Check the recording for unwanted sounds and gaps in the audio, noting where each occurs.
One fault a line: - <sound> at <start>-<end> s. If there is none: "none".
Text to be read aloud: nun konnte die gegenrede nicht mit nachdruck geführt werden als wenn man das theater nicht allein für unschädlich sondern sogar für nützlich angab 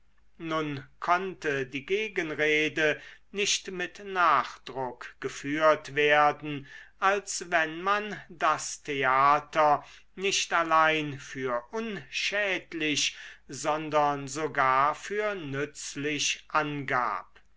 none